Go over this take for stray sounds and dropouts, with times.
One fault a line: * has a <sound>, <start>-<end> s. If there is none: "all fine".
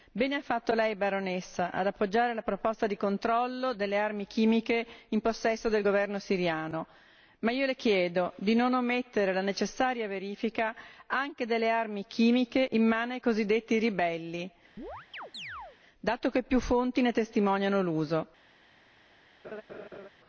* has a chirp, 14.8-15.8 s
* has a laugh, 19.4-20.1 s